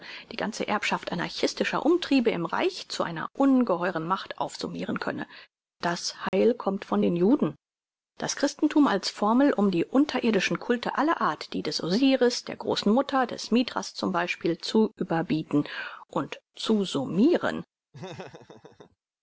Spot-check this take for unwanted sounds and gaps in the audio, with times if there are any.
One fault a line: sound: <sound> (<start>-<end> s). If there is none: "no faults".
sound: dropout (6.3-6.3 s)
sound: laugh (17.9-19.0 s)